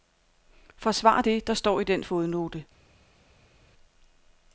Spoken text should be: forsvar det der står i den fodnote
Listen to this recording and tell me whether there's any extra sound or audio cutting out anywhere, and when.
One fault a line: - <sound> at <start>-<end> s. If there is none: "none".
none